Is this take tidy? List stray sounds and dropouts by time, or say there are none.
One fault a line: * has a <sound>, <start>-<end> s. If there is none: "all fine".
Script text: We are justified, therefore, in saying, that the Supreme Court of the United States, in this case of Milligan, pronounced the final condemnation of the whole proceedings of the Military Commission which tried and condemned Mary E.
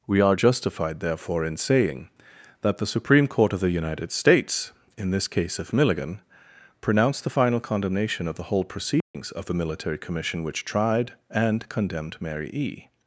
* has a dropout, 9.0-9.1 s